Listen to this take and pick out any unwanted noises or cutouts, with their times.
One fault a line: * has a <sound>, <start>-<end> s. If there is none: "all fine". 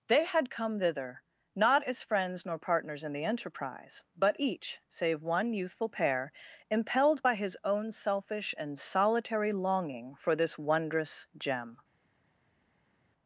all fine